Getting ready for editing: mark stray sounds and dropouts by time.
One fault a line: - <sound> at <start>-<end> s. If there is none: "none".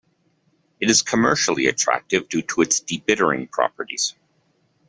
none